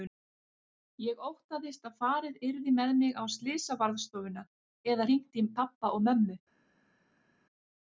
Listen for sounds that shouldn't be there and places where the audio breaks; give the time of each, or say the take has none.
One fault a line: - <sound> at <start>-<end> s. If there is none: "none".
none